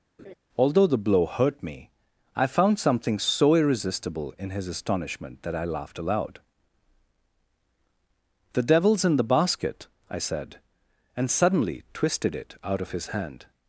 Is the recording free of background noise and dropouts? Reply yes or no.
no